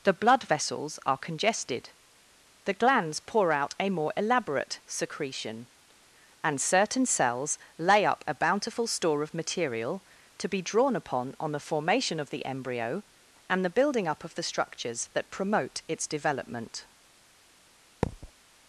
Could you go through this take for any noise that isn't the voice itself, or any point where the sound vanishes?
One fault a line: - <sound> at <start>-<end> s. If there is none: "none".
- thud at 18.0-18.3 s